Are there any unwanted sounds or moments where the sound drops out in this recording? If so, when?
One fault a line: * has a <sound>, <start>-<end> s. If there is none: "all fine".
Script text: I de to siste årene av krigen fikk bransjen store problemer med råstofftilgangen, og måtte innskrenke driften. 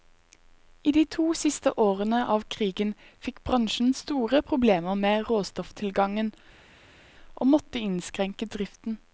all fine